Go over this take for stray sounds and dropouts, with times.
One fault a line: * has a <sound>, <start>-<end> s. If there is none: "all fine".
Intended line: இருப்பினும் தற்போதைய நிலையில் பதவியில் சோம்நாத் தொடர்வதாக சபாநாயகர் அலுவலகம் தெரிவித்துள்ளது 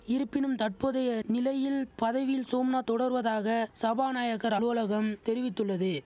all fine